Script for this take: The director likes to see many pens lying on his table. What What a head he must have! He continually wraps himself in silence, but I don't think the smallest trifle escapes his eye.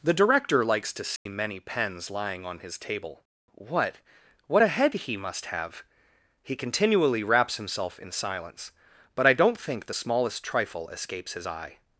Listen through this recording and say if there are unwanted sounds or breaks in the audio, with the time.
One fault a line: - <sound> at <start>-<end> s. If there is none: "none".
- dropout at 1.2-1.3 s